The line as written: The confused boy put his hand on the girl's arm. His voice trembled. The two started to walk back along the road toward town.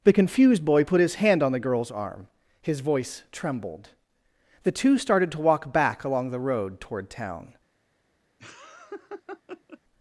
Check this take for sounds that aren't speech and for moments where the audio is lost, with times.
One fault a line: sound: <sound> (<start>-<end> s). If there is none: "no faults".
sound: laugh (8.4-9.8 s)